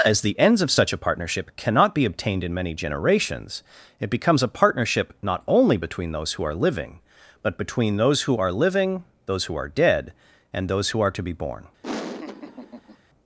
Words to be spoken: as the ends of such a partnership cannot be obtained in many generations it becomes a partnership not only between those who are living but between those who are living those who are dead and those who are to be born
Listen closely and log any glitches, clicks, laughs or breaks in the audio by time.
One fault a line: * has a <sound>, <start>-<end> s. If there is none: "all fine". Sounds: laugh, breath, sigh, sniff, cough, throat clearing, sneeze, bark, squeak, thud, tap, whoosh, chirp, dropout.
* has a laugh, 11.8-13.0 s